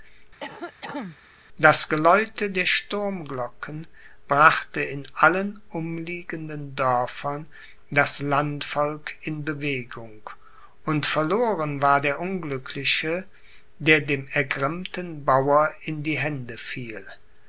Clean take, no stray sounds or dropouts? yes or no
no